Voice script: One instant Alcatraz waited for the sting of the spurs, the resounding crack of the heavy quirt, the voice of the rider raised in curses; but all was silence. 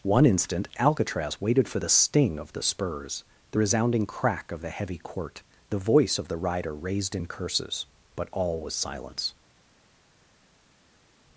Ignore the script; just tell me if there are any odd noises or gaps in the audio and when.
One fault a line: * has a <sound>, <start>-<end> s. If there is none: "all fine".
all fine